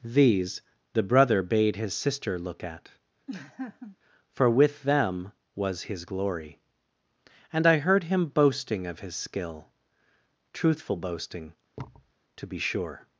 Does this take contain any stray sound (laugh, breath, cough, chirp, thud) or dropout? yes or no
yes